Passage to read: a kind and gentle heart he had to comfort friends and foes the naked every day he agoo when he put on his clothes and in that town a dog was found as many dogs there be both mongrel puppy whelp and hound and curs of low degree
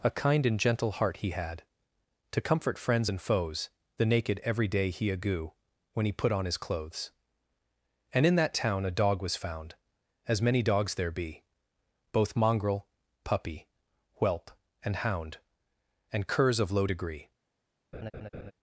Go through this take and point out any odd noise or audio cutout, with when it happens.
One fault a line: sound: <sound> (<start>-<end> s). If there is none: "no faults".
sound: laugh (17.9-18.5 s)